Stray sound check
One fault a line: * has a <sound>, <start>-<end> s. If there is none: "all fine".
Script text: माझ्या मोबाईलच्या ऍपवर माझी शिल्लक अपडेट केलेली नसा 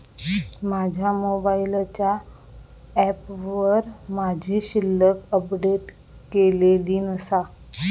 all fine